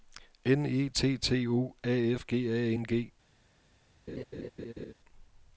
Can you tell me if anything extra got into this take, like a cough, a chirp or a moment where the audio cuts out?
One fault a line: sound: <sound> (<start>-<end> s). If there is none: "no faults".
sound: laugh (4.1-4.9 s)